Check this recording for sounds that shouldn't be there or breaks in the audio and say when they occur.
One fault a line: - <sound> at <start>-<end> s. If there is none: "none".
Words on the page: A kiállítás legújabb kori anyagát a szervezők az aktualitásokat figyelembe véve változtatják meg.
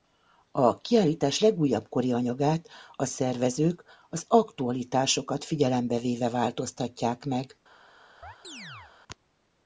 - chirp at 8.2-8.9 s